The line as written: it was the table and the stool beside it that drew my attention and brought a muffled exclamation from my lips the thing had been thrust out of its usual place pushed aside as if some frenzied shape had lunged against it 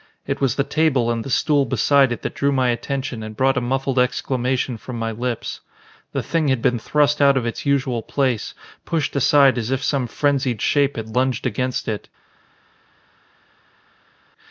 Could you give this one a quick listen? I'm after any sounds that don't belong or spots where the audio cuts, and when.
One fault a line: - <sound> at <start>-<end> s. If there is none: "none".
none